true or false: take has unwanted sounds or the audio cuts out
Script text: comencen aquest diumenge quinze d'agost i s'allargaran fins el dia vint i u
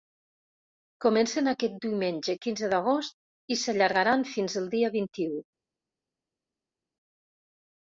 false